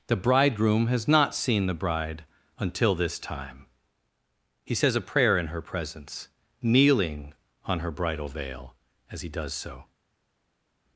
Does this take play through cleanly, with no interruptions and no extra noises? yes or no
yes